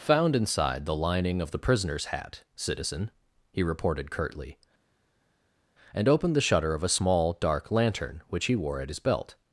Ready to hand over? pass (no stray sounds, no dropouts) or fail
pass